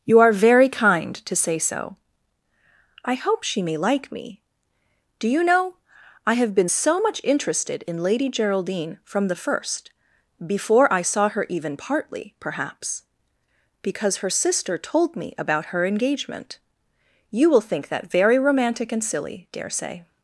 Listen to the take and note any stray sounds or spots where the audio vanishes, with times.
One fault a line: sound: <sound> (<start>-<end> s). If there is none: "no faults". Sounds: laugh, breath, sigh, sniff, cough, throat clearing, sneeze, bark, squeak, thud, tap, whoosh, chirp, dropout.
no faults